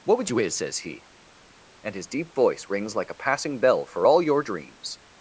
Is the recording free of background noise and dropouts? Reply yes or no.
yes